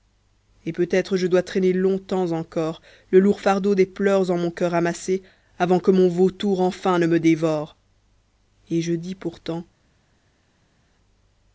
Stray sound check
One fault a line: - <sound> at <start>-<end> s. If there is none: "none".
none